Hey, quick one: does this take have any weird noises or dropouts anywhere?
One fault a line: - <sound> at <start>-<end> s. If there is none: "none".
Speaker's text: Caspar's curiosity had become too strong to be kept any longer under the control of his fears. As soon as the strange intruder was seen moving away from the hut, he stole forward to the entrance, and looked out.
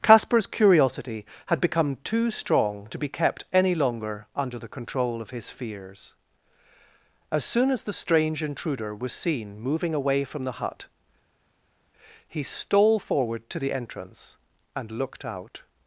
none